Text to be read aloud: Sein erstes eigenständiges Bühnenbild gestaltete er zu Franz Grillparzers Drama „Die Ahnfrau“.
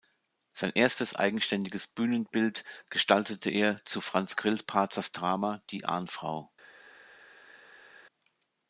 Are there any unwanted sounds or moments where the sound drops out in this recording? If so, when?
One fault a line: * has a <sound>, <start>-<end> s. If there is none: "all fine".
all fine